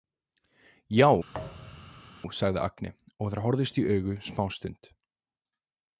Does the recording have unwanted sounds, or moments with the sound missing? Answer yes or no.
yes